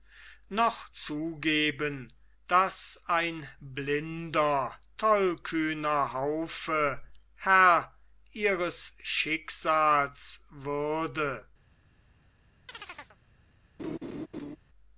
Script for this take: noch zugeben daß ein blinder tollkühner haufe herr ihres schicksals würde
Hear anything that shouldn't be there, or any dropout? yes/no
yes